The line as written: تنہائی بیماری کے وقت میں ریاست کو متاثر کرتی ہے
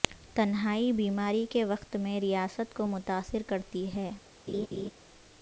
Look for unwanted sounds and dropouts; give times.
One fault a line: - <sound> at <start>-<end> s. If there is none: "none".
- laugh at 4.5-4.9 s